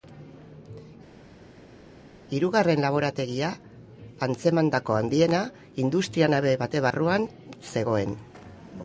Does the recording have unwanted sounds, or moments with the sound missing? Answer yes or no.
no